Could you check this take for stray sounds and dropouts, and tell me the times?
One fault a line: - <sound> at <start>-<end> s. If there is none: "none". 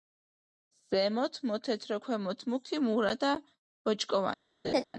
- laugh at 4.6-4.8 s